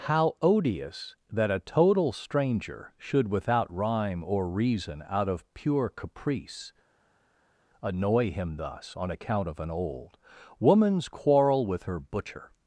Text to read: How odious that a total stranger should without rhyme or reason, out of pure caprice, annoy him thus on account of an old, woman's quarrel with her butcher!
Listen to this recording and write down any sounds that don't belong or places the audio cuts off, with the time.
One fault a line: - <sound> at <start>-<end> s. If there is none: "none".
none